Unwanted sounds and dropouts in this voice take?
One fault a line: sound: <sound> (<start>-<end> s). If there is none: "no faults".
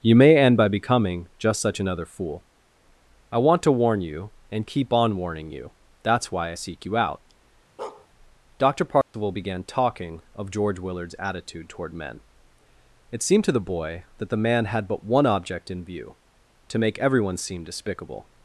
sound: bark (7.8-8.1 s)
sound: dropout (9.0-9.1 s)